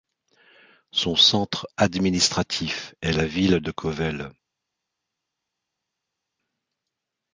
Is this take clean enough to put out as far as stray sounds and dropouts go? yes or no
yes